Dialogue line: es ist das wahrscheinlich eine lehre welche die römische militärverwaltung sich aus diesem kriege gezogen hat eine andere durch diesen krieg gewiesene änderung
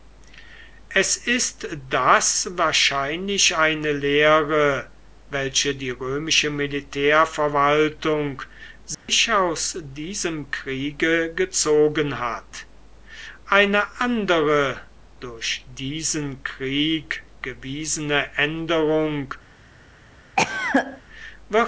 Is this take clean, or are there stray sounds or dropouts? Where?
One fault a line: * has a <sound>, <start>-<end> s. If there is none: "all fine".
* has a dropout, 8.9-9.1 s
* has a cough, 20.4-21.0 s